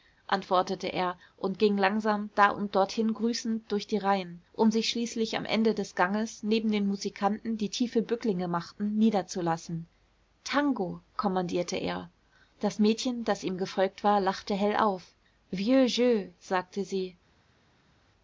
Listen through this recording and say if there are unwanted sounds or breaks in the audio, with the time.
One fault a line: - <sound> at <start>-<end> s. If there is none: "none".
none